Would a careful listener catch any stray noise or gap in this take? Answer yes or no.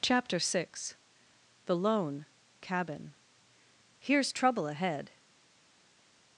no